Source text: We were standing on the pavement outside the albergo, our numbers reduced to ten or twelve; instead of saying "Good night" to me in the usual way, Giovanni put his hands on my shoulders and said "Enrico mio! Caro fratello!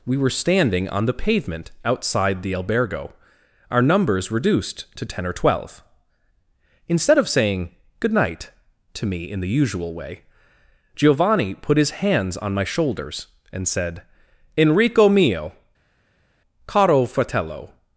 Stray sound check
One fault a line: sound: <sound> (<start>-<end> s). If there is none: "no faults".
no faults